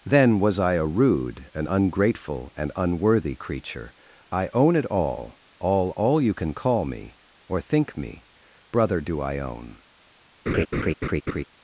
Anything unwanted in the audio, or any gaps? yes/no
yes